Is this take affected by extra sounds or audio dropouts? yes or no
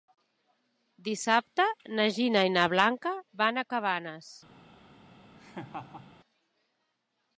yes